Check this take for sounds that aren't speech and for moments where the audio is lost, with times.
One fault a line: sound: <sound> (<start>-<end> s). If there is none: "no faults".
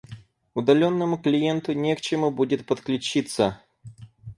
no faults